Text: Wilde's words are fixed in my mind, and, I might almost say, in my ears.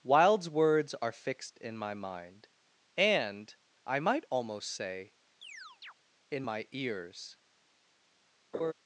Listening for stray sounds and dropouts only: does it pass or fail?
fail